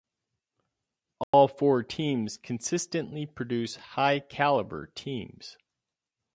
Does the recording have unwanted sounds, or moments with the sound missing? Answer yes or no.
yes